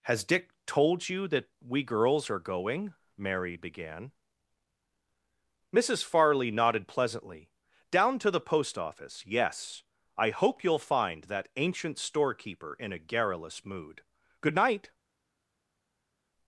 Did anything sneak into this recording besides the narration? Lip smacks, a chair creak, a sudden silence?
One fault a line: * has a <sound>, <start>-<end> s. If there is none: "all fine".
all fine